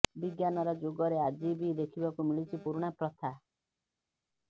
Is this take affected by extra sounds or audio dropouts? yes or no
no